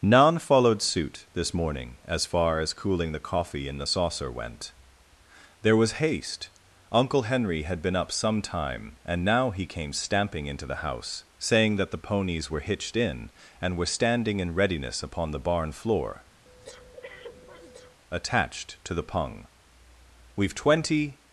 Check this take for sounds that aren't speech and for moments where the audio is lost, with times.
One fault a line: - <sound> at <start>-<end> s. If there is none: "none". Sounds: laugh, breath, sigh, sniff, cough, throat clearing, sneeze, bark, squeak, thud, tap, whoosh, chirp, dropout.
- breath at 16.4-18.0 s